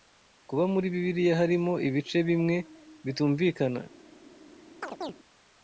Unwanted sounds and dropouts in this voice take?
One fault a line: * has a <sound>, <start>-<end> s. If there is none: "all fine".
* has a chirp, 4.8-5.1 s